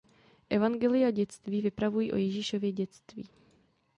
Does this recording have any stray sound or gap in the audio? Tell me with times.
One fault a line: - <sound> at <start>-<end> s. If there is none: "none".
none